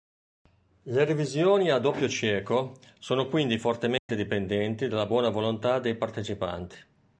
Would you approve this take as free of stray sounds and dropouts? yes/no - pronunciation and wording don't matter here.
no